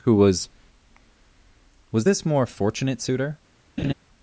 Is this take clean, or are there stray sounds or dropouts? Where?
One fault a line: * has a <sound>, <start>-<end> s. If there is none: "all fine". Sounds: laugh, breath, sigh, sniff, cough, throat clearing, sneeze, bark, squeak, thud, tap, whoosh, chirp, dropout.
* has a laugh, 3.8-3.9 s